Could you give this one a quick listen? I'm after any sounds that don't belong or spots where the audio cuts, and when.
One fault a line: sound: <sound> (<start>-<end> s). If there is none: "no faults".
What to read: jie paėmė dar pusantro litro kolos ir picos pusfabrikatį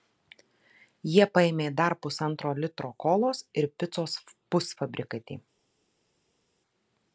no faults